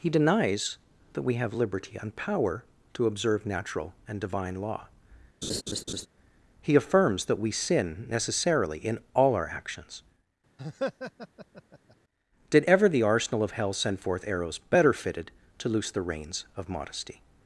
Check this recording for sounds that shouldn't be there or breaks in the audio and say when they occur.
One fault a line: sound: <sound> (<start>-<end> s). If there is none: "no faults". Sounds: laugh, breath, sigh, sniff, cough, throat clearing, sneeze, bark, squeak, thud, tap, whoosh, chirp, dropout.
sound: laugh (5.4-6.1 s)
sound: laugh (10.6-12.0 s)